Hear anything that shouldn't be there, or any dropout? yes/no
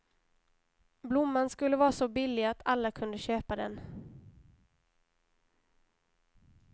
no